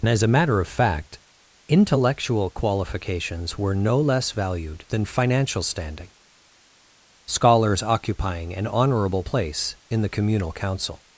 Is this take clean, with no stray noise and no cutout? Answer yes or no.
yes